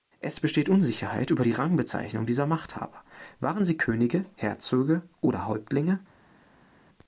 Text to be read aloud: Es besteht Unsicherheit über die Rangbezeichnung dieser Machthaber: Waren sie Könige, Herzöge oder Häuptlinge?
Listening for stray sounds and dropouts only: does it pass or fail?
pass